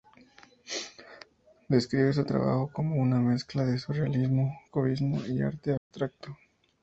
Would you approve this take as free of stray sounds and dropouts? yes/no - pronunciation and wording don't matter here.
no